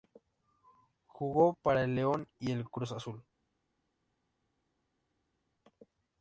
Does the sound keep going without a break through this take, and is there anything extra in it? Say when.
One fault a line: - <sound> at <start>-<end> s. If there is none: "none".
none